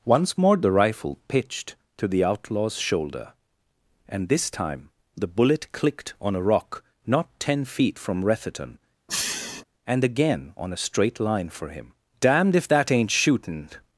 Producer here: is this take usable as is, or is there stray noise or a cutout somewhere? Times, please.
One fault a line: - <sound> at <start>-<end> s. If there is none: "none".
- sniff at 9.1-9.6 s